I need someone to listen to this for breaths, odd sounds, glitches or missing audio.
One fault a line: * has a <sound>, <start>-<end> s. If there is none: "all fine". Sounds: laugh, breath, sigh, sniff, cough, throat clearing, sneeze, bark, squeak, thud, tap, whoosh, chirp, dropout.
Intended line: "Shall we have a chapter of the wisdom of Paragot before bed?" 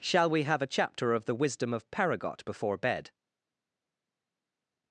all fine